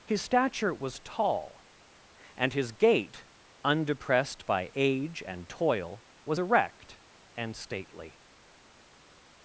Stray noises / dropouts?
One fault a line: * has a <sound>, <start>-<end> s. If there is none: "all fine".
all fine